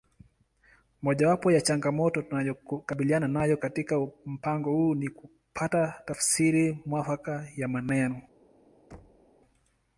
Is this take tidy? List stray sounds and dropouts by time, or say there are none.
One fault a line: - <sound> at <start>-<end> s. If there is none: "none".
- thud at 8.9-9.3 s